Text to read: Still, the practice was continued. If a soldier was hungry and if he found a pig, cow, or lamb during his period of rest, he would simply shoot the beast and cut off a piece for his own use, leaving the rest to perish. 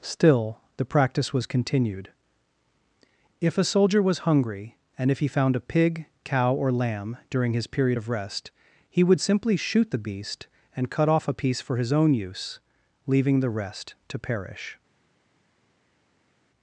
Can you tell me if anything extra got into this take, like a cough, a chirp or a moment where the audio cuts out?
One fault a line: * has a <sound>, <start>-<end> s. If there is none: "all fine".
all fine